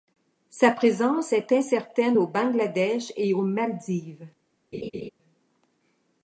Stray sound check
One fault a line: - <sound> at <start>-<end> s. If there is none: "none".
- laugh at 4.7-5.1 s